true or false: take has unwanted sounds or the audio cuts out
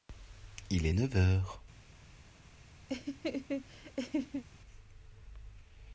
true